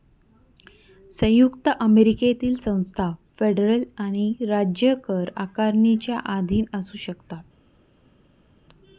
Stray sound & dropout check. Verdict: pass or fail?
pass